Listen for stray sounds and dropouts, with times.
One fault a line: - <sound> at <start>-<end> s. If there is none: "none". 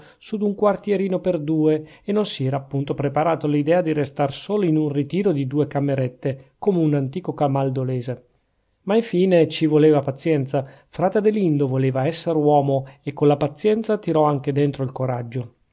none